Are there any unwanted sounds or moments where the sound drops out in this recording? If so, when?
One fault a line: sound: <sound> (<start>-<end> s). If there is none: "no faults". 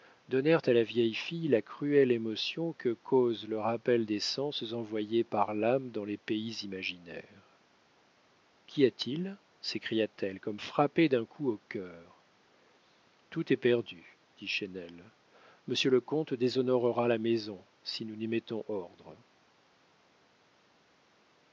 no faults